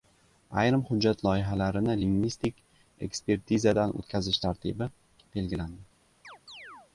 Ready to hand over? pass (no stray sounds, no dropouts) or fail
fail